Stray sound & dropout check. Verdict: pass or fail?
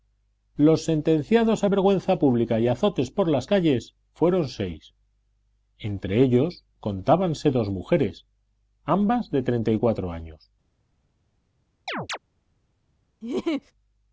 fail